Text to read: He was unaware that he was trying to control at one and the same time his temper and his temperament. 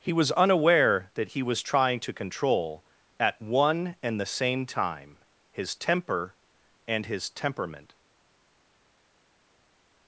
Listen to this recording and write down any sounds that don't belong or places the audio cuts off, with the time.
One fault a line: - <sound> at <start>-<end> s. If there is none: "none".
none